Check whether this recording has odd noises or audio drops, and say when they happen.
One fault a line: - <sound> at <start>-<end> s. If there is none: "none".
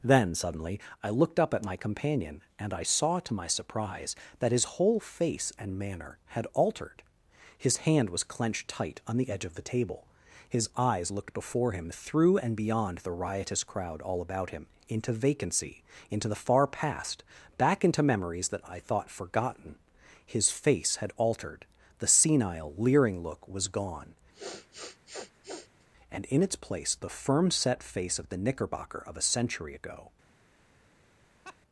- sniff at 24.3-25.9 s
- laugh at 31.4-31.6 s